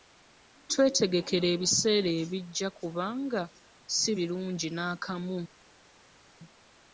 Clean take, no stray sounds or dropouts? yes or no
yes